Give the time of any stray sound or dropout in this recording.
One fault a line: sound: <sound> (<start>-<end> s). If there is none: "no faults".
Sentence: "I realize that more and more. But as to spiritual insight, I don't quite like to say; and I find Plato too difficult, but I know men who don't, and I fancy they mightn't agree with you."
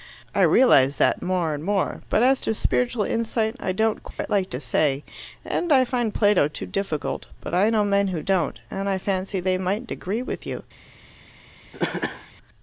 sound: dropout (4.1-4.2 s)
sound: cough (11.7-12.3 s)